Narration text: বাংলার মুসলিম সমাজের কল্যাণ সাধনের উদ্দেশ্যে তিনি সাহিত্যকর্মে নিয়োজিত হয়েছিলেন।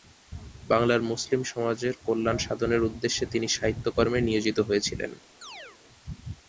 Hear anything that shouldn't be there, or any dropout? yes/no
yes